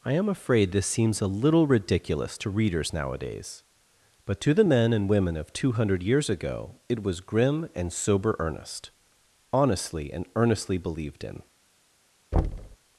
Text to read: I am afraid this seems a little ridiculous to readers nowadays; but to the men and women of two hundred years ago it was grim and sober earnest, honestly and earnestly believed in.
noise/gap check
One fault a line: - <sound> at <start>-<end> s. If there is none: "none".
- thud at 12.3-12.8 s